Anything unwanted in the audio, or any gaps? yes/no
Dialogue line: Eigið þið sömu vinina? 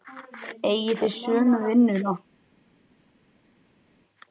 no